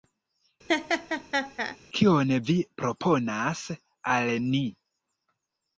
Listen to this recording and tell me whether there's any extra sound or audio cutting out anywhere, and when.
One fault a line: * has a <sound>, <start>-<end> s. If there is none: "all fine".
* has a laugh, 0.7-1.8 s